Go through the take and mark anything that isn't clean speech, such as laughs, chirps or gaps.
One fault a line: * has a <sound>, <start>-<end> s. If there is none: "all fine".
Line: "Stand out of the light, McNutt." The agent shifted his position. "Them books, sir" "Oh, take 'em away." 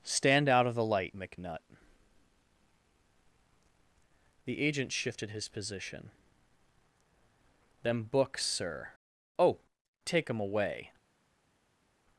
all fine